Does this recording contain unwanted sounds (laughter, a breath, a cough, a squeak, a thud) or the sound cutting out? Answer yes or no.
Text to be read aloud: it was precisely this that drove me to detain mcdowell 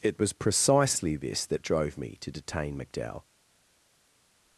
no